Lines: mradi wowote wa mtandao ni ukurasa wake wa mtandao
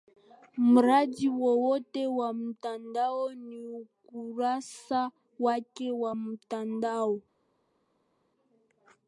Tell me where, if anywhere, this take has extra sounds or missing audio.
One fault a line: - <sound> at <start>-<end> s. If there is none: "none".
none